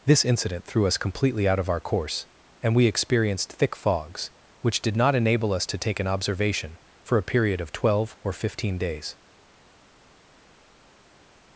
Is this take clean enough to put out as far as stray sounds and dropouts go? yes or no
yes